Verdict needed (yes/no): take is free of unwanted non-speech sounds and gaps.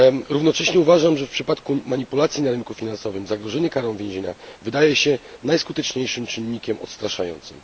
yes